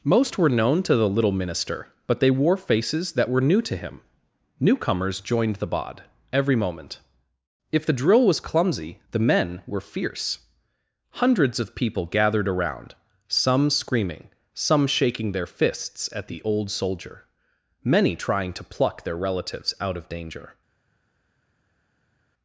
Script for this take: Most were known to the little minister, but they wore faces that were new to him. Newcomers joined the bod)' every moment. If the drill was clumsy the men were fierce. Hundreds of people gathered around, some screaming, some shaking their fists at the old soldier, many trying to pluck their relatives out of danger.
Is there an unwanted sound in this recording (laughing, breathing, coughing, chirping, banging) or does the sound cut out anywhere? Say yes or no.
no